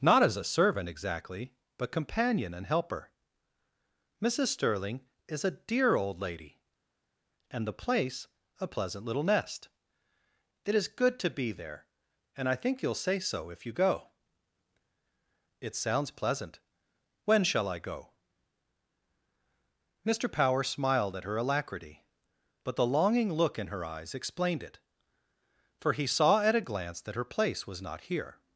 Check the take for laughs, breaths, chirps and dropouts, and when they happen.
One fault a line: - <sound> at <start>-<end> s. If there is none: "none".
none